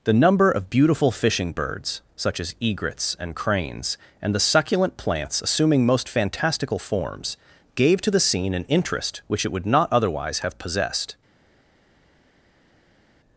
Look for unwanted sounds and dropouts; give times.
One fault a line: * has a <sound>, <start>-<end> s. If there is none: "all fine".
all fine